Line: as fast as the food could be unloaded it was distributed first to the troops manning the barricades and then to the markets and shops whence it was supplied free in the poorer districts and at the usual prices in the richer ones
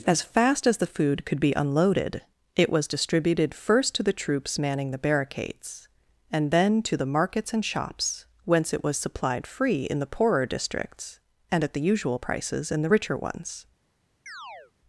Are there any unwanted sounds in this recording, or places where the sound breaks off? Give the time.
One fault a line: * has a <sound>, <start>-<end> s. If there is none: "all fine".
* has a chirp, 14.3-14.7 s